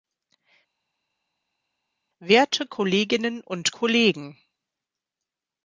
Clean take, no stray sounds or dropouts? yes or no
yes